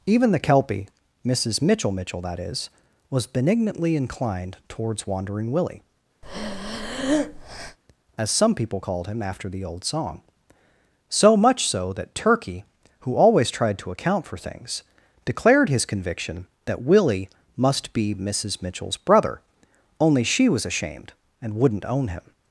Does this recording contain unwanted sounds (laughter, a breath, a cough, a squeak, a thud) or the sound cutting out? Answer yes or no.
yes